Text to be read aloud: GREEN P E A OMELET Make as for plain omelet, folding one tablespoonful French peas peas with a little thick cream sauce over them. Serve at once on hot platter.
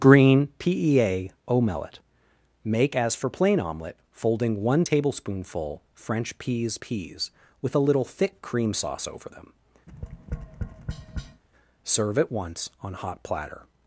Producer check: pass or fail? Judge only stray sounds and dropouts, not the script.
fail